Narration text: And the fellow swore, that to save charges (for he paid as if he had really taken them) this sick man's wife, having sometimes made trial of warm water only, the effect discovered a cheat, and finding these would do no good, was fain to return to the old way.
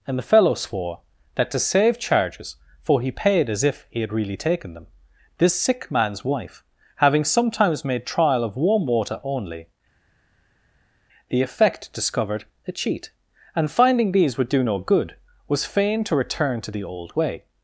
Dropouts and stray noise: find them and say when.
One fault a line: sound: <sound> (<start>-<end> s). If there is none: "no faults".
no faults